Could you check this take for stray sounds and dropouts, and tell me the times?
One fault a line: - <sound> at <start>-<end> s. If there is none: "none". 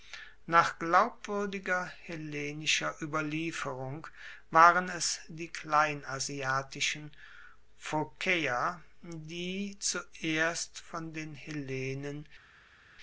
none